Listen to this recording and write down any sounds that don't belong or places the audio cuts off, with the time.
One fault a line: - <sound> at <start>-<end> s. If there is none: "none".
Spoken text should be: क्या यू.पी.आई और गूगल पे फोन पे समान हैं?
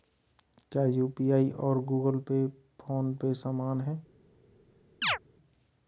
- chirp at 5.0-5.2 s